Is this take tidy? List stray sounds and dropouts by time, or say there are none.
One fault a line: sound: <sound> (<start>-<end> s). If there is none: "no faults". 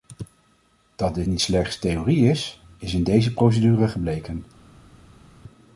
no faults